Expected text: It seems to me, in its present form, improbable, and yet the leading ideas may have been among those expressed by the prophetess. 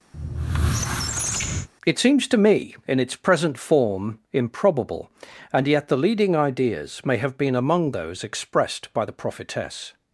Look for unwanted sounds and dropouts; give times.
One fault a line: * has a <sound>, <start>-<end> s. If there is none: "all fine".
* has a squeak, 0.1-1.7 s